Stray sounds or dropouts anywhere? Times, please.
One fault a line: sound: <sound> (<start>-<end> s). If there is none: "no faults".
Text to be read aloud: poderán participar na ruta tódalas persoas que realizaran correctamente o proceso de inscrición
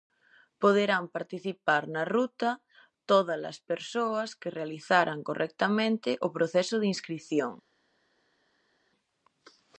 no faults